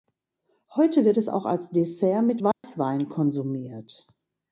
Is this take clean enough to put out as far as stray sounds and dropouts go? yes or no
no